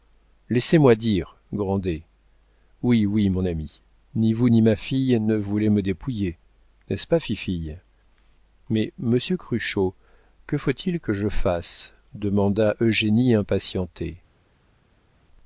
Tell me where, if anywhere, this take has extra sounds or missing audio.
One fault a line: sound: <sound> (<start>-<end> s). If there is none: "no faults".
no faults